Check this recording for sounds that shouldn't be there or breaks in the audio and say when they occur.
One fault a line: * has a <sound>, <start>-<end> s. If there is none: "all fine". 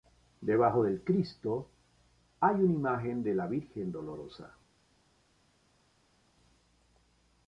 all fine